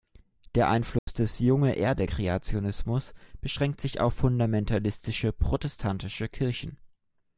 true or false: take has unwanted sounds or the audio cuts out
true